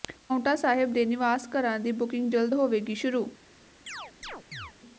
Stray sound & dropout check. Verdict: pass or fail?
fail